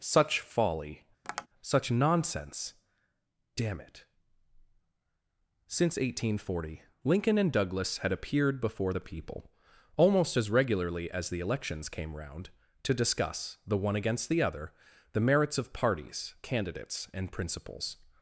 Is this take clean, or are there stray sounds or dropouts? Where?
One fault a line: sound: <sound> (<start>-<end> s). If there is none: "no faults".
sound: tap (1.2-1.5 s)